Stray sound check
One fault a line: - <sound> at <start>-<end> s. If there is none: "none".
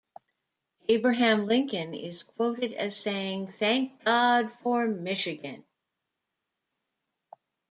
none